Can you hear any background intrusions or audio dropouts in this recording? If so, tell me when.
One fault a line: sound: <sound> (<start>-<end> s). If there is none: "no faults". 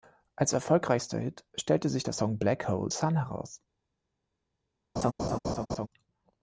sound: laugh (5.0-5.9 s)